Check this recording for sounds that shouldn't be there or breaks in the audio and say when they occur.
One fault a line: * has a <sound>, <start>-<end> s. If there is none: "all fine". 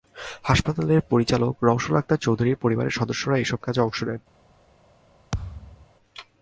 * has a thud, 5.3-5.9 s